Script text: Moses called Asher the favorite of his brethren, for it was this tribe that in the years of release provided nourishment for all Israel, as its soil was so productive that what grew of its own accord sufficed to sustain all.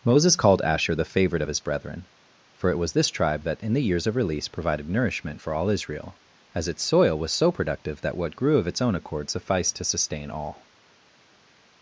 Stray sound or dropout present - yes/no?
no